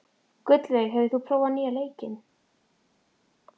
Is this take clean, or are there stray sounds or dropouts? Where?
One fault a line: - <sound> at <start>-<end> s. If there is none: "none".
none